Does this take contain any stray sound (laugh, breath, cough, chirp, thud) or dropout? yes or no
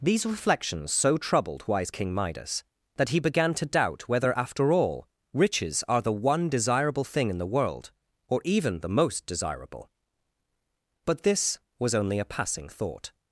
no